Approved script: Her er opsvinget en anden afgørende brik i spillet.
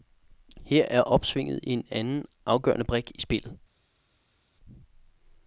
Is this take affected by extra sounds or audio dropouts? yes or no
no